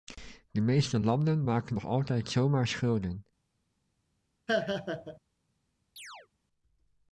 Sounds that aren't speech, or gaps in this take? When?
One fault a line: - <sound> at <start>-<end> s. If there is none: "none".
- laugh at 4.5-5.2 s
- chirp at 6.0-6.3 s